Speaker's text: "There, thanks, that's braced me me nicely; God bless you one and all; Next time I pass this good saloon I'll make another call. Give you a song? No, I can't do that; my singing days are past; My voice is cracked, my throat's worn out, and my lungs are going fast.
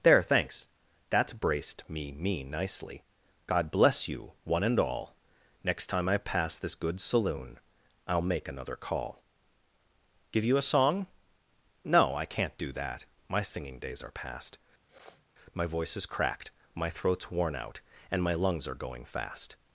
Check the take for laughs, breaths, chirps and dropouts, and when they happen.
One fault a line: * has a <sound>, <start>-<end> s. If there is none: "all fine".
* has a sniff, 14.9-15.2 s